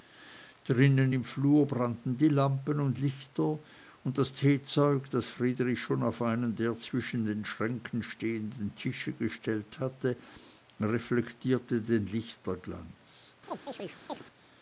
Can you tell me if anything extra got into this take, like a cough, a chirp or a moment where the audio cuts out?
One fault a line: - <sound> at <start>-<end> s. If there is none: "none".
- chirp at 13.5-14.2 s